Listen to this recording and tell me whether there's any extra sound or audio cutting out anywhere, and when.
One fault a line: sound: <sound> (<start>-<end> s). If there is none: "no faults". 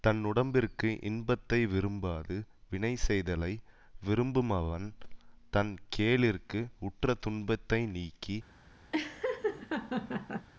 sound: laugh (8.9-10.5 s)